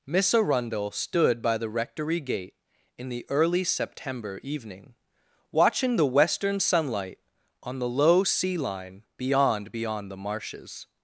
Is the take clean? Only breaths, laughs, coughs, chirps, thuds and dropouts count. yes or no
yes